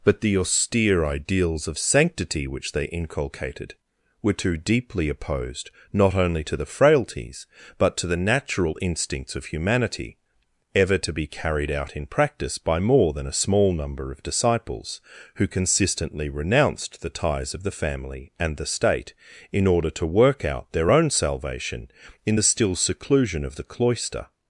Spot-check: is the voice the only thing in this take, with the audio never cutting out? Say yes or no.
yes